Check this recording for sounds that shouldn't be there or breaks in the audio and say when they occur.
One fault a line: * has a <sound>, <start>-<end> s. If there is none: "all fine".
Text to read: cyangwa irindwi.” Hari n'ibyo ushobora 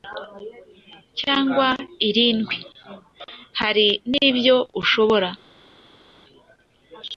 all fine